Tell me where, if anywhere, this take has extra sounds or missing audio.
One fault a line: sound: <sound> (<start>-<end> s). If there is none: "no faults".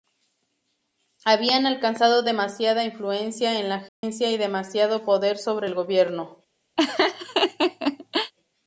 sound: dropout (3.9-4.0 s)
sound: laugh (6.8-8.3 s)